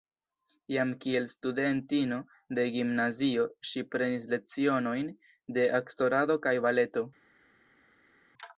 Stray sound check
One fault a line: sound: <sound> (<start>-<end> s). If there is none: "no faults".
no faults